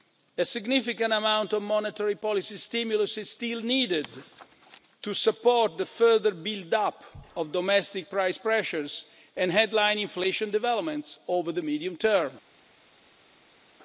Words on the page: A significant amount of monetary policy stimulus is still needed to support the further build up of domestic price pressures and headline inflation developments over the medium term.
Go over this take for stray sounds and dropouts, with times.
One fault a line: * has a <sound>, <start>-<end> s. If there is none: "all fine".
all fine